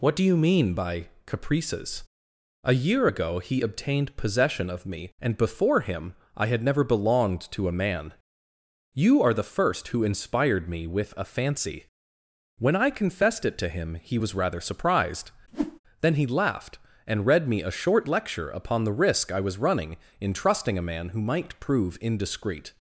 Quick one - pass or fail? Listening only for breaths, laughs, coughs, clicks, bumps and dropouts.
fail